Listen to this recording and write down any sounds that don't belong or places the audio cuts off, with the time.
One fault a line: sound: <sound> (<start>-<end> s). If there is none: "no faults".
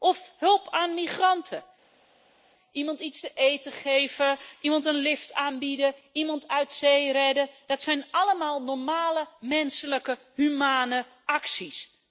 no faults